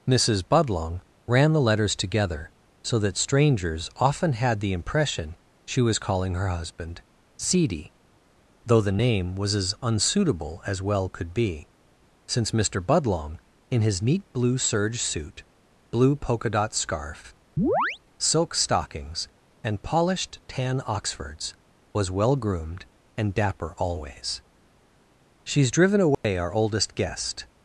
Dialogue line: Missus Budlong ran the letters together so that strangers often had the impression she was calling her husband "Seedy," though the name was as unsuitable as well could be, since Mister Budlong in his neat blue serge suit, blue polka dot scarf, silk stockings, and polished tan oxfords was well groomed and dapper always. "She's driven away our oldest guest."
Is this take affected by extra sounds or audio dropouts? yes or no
yes